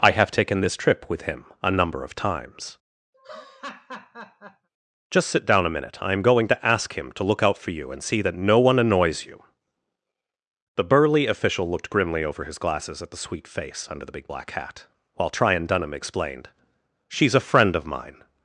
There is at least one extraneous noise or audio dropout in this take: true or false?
true